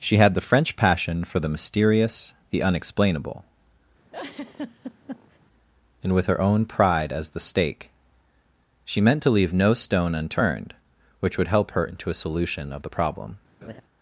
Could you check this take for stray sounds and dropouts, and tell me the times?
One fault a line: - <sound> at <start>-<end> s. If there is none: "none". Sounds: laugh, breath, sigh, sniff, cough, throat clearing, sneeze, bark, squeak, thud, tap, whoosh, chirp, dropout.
- laugh at 4.1-5.4 s
- laugh at 13.6-13.8 s